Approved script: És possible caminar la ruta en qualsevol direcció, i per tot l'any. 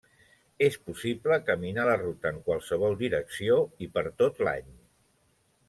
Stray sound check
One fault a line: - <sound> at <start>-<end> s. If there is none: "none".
none